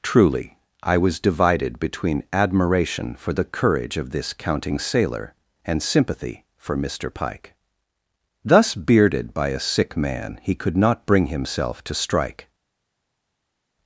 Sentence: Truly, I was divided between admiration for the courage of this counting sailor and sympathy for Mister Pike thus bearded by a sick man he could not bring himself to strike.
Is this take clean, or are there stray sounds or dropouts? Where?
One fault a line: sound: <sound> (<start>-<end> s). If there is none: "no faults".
no faults